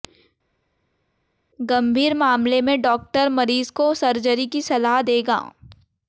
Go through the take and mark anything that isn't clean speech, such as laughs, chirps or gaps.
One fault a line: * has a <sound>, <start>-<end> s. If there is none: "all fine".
all fine